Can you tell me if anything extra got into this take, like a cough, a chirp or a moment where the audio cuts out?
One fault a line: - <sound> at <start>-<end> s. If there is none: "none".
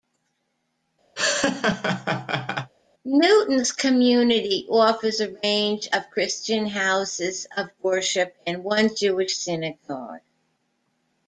- laugh at 1.2-2.7 s